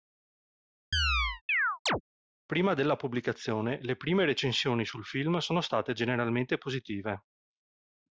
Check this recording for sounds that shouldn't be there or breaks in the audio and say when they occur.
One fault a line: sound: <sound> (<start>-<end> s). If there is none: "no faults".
sound: chirp (0.9-2.0 s)